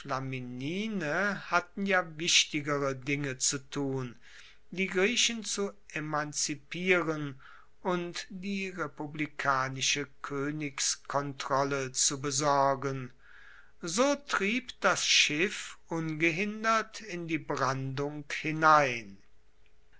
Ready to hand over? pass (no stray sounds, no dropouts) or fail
pass